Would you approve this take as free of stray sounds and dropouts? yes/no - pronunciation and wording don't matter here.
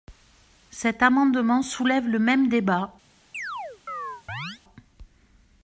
no